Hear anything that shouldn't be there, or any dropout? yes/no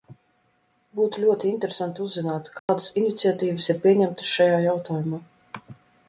yes